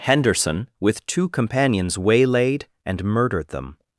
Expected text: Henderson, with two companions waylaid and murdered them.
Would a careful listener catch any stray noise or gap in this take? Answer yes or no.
no